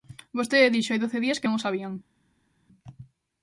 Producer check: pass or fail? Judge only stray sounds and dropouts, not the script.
pass